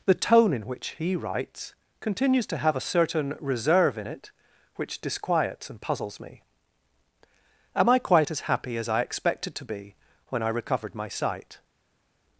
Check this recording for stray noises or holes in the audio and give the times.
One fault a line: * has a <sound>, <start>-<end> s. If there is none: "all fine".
all fine